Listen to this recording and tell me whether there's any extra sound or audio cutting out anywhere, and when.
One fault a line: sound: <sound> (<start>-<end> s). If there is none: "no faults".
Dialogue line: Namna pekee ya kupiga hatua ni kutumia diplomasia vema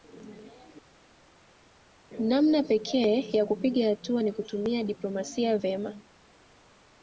no faults